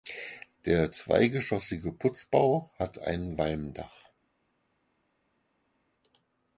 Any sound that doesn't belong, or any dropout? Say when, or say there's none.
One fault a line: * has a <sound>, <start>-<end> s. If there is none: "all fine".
all fine